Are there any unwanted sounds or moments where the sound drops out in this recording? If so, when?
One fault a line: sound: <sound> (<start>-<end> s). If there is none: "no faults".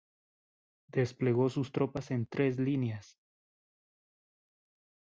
no faults